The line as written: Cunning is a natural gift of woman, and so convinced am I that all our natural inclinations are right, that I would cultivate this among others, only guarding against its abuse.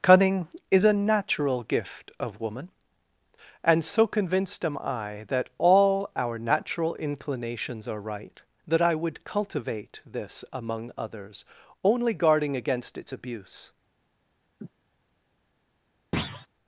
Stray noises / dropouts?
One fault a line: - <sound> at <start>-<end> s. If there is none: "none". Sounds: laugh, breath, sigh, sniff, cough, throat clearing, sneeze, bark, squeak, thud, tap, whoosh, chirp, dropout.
- sniff at 14.6-14.7 s
- thud at 16.1-16.5 s